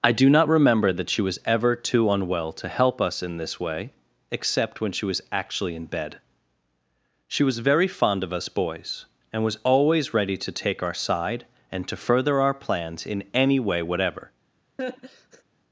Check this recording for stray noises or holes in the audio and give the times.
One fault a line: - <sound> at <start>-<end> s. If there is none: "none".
- laugh at 14.8-15.4 s